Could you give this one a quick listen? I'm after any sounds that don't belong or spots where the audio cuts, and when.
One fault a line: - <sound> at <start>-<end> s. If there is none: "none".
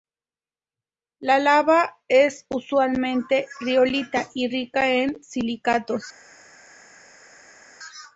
none